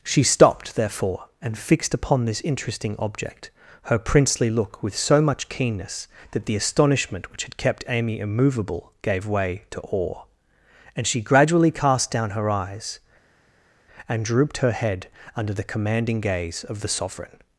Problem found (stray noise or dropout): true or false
false